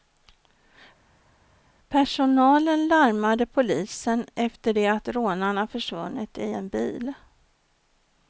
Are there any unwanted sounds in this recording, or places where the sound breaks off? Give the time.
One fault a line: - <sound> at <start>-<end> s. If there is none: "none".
none